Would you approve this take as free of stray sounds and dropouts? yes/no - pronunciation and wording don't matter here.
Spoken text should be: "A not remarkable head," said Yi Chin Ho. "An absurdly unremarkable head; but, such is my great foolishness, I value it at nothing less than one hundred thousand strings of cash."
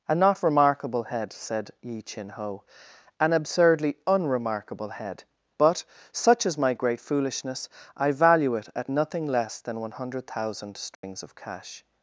no